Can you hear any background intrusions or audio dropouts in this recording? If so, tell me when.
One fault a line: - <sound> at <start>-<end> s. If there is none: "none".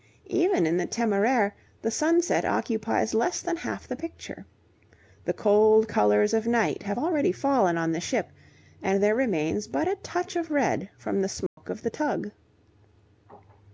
- dropout at 11.5-11.6 s